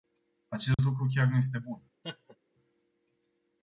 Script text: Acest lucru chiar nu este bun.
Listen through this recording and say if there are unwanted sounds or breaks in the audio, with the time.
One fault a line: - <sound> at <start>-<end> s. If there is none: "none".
- dropout at 0.7-0.8 s
- laugh at 2.0-2.4 s